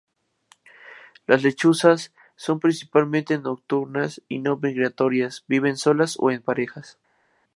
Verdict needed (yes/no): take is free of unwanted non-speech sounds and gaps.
yes